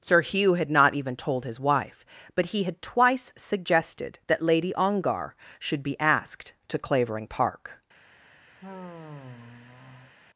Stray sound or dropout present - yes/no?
yes